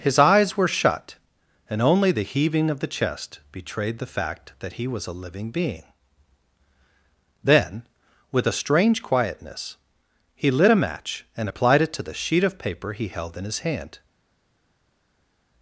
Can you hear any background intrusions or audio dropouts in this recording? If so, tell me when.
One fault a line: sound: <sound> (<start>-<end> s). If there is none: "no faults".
no faults